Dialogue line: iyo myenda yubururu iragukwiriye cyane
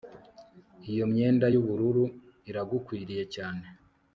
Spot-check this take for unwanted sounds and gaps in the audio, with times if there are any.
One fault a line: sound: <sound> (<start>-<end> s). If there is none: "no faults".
no faults